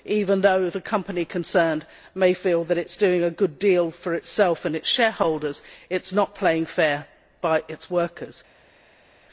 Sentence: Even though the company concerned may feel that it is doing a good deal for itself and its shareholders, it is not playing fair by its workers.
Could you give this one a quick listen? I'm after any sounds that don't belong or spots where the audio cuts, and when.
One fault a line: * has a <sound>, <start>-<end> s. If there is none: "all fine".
all fine